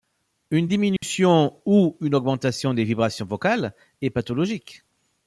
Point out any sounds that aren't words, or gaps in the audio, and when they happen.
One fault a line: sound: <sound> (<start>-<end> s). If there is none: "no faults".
sound: dropout (1.0-1.0 s)